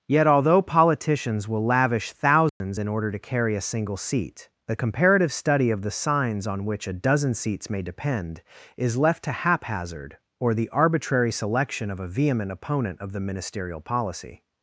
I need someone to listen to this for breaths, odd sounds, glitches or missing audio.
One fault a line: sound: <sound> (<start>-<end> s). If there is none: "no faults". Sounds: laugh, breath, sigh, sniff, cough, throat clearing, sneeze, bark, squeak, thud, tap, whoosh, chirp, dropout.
sound: dropout (2.5-2.6 s)